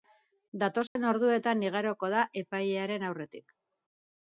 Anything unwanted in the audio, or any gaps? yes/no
yes